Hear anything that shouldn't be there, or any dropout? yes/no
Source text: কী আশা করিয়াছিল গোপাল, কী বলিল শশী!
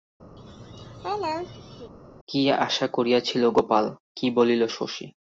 yes